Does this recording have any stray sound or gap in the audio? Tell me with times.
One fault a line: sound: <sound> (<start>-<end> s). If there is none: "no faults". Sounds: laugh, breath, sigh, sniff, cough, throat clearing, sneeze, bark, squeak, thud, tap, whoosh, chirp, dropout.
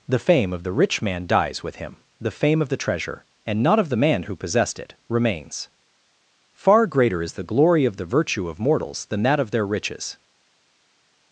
no faults